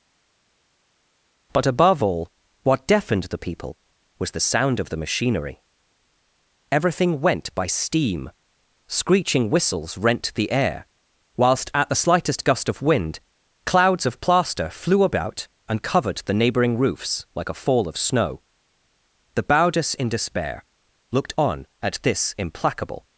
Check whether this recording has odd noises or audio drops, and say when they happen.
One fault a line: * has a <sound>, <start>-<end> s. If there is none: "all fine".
all fine